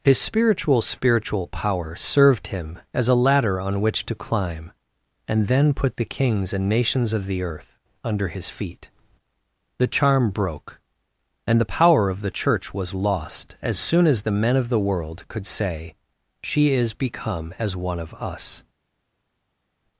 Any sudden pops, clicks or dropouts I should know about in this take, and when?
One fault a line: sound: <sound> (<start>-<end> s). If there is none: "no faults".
no faults